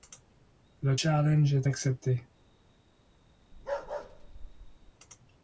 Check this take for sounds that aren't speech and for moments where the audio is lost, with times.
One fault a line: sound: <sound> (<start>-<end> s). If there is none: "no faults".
sound: bark (3.5-4.9 s)